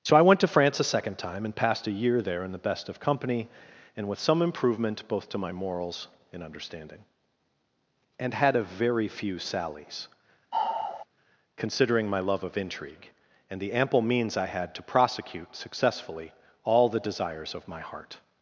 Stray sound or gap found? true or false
true